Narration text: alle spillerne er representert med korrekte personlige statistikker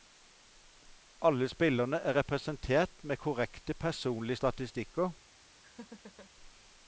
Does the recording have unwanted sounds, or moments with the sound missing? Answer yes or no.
yes